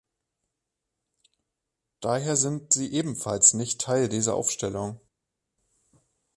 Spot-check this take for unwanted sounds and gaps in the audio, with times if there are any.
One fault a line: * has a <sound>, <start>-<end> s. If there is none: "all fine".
all fine